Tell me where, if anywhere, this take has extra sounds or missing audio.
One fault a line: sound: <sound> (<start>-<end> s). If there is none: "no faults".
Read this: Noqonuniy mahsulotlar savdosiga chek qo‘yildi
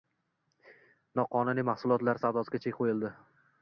no faults